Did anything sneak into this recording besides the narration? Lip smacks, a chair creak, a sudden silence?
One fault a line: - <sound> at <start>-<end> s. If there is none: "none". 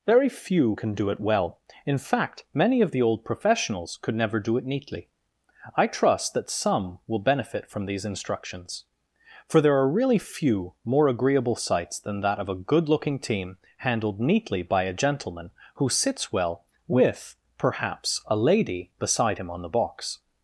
none